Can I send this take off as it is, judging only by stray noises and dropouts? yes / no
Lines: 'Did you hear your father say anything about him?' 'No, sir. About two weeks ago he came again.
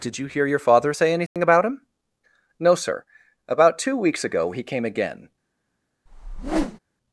no